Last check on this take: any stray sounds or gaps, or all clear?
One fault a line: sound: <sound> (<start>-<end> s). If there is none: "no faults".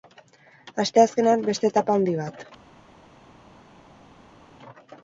no faults